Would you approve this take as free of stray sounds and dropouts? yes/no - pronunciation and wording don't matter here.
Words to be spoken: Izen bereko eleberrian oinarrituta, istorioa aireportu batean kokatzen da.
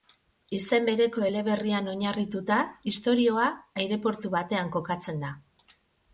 yes